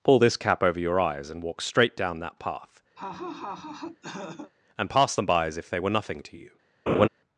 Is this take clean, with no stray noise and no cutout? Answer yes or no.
no